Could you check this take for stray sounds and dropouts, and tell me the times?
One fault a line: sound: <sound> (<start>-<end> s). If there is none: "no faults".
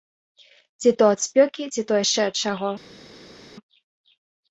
no faults